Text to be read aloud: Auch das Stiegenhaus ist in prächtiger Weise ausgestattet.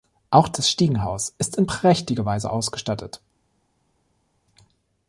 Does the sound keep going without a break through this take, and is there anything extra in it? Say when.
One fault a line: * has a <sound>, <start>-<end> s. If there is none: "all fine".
all fine